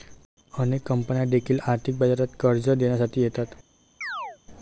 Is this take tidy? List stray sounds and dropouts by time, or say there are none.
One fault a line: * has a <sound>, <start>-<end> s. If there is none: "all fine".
* has a chirp, 4.0-4.4 s